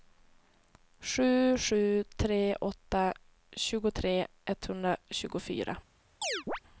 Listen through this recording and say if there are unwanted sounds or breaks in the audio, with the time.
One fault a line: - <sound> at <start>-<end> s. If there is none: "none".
- chirp at 6.2-6.6 s